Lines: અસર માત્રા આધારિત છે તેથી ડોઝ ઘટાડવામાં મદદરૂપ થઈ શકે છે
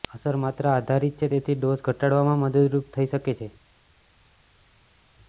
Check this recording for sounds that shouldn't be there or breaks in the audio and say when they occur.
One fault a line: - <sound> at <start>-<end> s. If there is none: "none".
none